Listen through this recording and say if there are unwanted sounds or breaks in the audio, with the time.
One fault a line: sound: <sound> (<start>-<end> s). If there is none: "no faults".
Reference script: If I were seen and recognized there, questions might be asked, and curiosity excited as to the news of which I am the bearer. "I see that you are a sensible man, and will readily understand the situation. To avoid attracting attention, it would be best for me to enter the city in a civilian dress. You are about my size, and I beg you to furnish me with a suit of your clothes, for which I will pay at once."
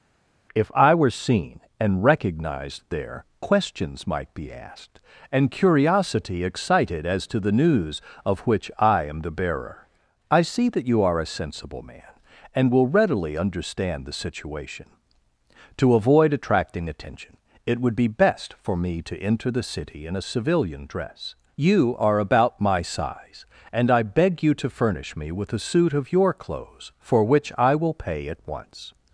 no faults